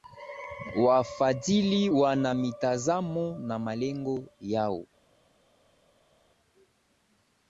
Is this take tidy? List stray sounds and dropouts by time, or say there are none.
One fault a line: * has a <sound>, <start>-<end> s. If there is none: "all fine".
all fine